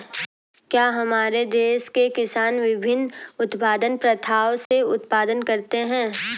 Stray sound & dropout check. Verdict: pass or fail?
fail